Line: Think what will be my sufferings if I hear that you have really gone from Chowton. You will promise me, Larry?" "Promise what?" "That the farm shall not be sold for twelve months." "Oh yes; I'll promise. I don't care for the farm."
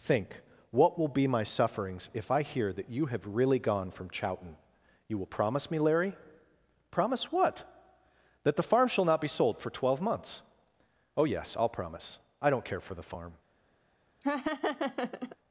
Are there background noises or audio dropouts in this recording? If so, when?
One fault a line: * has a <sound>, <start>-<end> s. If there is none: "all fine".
* has a laugh, 14.2-15.4 s